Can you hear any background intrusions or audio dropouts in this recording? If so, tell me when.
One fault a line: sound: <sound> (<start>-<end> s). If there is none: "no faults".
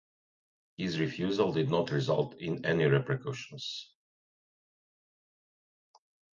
no faults